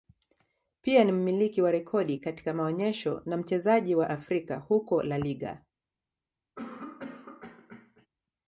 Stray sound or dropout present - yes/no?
yes